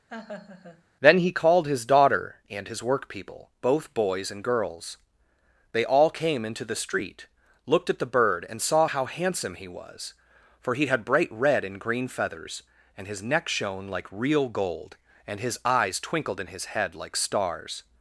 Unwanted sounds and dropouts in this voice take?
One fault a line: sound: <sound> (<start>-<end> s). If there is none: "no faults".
sound: laugh (0.1-0.8 s)